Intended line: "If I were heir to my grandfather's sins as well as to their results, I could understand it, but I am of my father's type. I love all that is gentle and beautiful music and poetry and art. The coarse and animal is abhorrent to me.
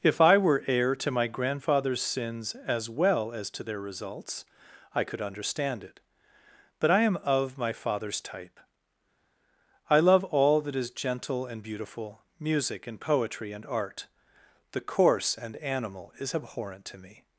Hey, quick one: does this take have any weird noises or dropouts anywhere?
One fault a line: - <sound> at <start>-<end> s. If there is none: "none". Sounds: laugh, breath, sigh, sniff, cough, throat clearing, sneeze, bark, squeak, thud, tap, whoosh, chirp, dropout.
none